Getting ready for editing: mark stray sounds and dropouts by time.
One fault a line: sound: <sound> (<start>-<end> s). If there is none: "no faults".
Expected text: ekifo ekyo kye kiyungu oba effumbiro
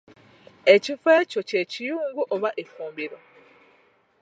no faults